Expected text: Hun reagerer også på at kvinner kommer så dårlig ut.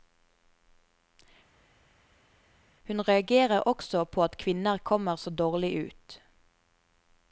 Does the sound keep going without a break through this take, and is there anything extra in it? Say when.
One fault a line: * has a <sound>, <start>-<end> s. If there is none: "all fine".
all fine